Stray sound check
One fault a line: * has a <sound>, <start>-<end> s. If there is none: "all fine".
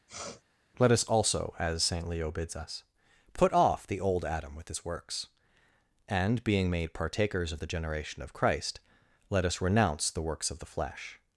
* has a sniff, 0.1-0.4 s